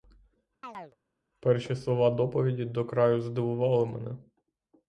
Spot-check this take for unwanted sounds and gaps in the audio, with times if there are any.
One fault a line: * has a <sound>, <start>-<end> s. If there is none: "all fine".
* has a chirp, 0.6-1.0 s